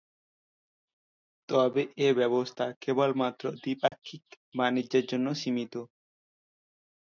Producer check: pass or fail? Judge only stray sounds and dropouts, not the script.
fail